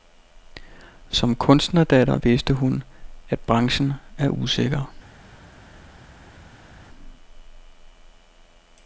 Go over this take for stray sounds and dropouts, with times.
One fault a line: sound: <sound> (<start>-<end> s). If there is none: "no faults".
no faults